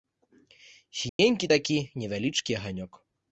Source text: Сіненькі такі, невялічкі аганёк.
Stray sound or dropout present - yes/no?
yes